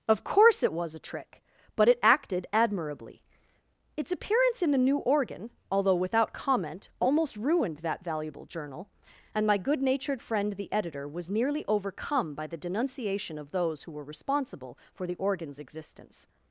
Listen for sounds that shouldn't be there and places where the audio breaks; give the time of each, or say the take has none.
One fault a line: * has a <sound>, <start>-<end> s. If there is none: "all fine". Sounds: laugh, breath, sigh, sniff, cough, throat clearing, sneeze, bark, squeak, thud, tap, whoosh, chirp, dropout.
all fine